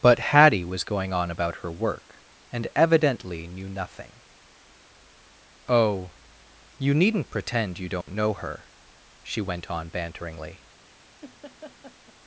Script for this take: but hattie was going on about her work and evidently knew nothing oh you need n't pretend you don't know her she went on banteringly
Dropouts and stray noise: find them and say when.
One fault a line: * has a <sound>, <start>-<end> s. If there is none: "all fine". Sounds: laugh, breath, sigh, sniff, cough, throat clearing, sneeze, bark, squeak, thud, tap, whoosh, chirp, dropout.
* has a dropout, 8.0-8.1 s
* has a laugh, 11.2-12.1 s